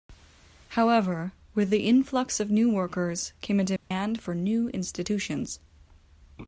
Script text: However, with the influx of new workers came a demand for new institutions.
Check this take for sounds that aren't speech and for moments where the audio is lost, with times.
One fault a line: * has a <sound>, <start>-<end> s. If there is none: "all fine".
* has a dropout, 3.8-3.9 s